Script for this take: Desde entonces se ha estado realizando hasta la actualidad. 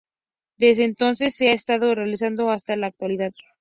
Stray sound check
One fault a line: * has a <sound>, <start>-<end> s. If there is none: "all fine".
all fine